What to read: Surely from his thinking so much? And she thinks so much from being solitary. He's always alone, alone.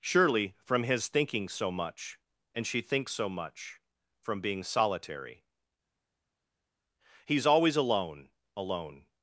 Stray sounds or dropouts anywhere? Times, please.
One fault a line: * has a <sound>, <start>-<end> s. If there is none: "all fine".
all fine